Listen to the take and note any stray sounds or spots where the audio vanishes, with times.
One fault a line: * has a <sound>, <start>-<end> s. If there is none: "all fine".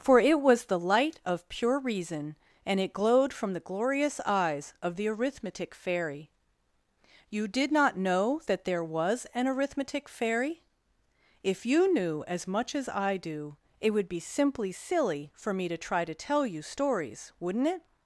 all fine